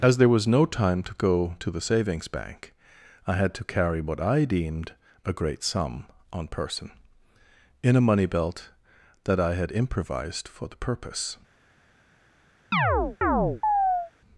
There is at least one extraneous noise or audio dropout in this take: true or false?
true